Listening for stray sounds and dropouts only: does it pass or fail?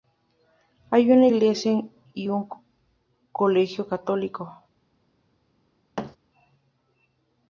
fail